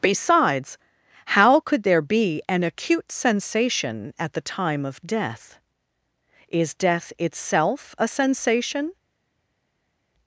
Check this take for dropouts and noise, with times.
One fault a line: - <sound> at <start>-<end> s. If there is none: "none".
none